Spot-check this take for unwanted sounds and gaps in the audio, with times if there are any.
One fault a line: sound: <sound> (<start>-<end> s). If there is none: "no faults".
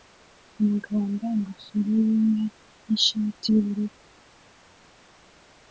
no faults